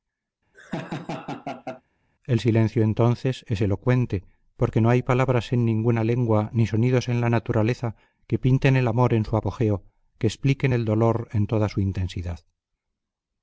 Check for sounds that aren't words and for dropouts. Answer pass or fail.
fail